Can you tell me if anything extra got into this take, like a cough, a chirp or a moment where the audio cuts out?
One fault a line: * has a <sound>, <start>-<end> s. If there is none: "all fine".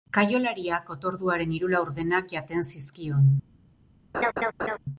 * has a laugh, 4.1-4.8 s